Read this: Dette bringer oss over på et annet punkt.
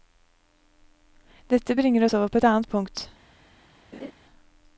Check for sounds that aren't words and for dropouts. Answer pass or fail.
fail